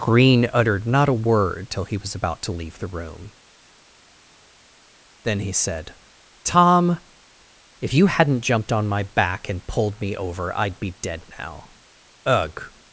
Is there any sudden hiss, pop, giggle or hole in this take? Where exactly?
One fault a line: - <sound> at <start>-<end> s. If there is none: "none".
none